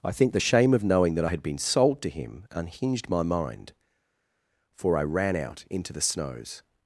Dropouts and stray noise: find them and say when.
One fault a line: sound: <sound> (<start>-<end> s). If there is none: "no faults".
no faults